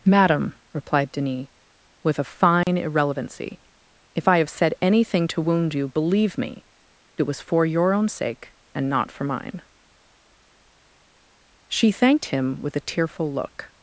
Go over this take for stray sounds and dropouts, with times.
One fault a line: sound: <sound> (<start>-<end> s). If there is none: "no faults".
sound: dropout (2.6-2.7 s)